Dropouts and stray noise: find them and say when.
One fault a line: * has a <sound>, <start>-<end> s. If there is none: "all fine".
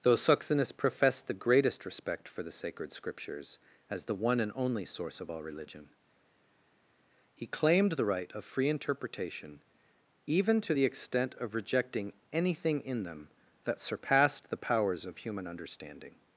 all fine